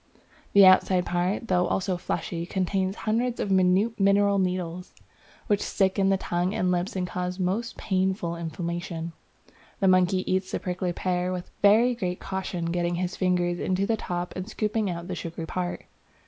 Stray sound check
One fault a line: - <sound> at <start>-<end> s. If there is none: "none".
none